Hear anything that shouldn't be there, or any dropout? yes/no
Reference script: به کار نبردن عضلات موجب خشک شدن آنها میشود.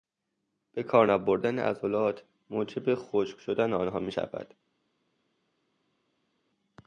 no